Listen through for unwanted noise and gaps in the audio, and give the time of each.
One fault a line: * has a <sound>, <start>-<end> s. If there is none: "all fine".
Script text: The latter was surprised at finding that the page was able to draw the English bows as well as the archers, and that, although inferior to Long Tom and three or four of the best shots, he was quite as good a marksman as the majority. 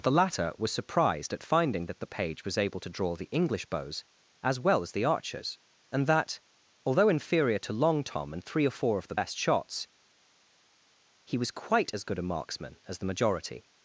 all fine